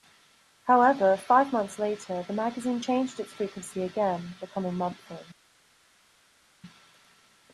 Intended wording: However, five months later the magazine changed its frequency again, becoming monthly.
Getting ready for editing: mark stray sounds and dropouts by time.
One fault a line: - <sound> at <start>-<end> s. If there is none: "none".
none